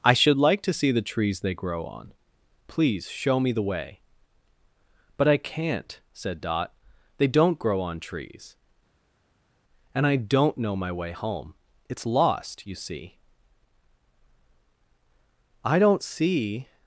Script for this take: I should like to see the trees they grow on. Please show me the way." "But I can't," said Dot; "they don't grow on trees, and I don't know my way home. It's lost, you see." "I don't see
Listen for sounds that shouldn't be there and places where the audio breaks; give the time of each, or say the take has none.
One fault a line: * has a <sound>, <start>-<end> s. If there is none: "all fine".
all fine